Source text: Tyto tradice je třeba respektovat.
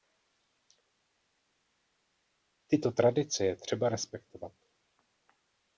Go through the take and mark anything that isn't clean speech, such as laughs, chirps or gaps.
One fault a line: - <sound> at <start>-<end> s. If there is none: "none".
none